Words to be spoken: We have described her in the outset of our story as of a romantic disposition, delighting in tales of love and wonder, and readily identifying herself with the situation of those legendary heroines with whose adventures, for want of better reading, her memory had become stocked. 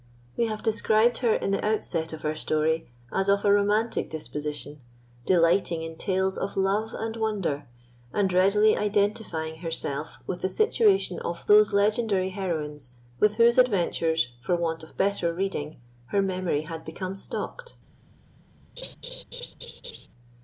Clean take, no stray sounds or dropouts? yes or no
no